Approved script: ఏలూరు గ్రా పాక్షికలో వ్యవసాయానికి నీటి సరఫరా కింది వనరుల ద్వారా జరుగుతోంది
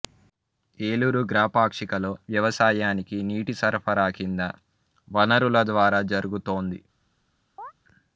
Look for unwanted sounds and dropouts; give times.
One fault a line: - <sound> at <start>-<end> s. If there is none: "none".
- chirp at 7.6-7.7 s